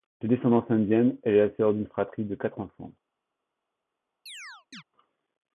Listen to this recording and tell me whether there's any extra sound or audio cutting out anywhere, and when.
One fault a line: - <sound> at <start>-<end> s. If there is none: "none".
- chirp at 4.3-4.8 s